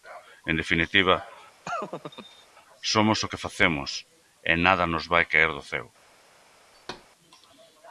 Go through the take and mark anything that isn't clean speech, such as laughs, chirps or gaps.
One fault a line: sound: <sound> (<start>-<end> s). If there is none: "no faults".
sound: laugh (1.6-2.5 s)
sound: thud (6.7-7.1 s)